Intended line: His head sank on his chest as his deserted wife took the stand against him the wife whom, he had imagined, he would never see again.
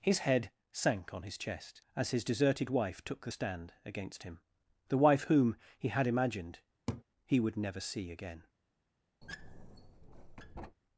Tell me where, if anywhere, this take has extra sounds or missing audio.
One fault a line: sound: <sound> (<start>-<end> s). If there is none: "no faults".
sound: laugh (6.9-7.0 s)
sound: squeak (9.2-10.8 s)